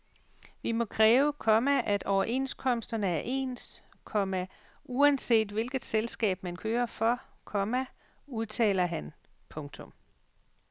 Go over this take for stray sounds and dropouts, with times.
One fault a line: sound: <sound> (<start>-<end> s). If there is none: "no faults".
no faults